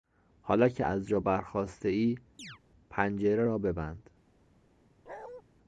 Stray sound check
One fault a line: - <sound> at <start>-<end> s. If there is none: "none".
- chirp at 2.4-2.6 s
- bark at 5.1-5.4 s